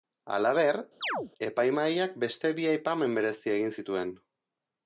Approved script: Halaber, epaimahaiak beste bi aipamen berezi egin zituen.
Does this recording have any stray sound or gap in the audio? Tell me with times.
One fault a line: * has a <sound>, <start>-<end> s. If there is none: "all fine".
* has a chirp, 1.0-1.3 s